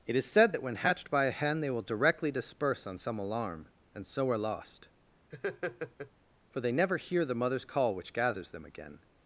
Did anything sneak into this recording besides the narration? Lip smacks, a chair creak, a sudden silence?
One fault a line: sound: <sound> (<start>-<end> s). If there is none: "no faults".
sound: laugh (5.3-6.1 s)